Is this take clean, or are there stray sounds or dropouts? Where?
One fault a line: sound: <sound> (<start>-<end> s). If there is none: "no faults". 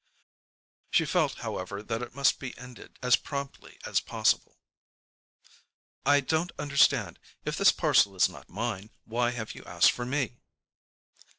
no faults